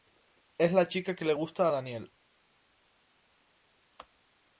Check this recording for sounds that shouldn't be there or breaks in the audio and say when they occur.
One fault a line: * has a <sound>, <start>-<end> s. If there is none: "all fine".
all fine